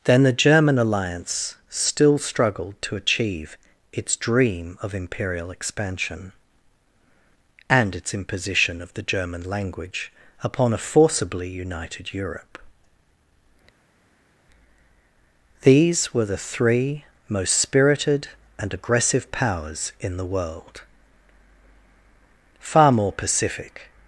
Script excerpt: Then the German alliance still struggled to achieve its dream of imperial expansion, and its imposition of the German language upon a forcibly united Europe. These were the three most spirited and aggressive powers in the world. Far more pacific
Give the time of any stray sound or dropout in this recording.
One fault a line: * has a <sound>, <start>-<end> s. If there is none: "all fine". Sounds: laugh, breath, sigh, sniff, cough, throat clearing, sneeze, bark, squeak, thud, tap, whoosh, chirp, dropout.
all fine